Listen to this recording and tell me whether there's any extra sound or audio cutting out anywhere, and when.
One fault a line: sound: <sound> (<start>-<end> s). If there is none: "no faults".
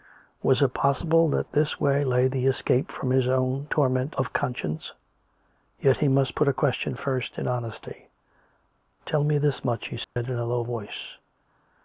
sound: dropout (10.0-10.2 s)